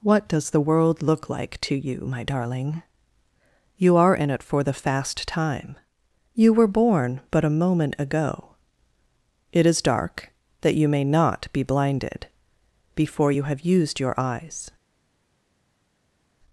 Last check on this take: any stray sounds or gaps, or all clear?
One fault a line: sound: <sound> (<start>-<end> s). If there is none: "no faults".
no faults